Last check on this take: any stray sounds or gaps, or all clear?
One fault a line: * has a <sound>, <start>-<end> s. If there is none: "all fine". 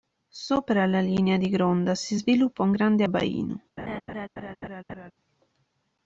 * has a laugh, 3.8-5.1 s